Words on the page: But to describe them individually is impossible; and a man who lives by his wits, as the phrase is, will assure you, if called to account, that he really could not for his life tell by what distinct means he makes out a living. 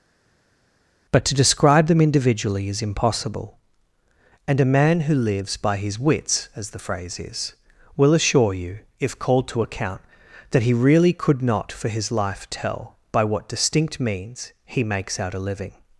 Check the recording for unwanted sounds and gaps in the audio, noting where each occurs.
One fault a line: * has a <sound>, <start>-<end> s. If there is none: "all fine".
all fine